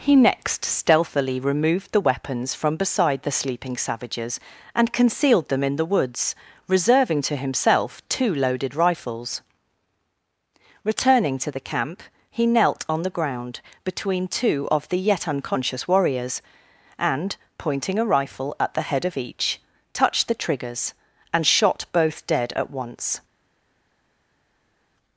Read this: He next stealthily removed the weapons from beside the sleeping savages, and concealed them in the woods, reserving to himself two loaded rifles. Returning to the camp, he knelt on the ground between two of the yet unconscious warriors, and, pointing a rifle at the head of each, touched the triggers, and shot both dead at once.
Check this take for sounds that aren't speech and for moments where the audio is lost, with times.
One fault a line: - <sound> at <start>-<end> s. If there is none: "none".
none